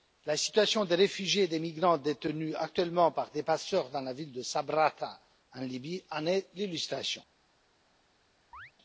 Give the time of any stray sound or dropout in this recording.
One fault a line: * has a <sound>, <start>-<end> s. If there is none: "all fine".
* has a chirp, 8.5-8.7 s